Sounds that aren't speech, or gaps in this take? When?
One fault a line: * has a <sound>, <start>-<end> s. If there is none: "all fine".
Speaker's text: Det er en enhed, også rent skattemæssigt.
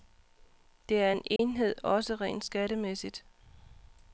* has a dropout, 1.4-1.4 s